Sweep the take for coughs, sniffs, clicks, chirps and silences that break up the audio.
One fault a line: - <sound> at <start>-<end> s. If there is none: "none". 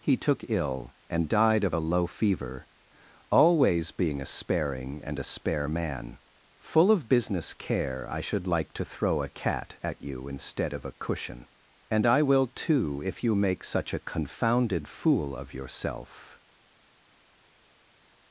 none